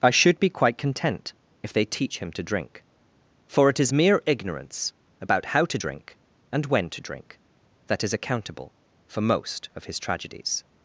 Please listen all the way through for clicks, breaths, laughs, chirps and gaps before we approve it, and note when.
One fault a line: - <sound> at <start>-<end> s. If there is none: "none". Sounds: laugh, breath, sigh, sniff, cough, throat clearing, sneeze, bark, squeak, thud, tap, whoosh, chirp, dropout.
none